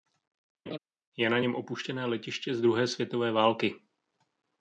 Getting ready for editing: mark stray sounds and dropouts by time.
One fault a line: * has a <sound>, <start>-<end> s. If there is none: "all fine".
* has a laugh, 0.7-0.8 s